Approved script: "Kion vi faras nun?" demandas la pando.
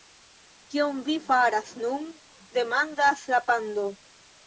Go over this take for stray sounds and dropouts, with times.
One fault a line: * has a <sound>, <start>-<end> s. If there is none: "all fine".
all fine